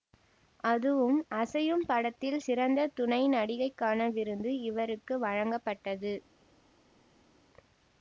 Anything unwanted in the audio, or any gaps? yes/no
no